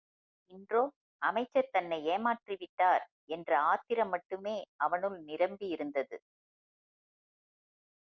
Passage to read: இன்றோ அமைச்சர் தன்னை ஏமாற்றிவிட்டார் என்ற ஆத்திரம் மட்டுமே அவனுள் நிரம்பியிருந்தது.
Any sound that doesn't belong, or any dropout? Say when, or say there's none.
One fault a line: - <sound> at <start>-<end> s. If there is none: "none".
none